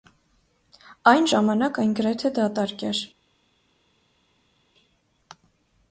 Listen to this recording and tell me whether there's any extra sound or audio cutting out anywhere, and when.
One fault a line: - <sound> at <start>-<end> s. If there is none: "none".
none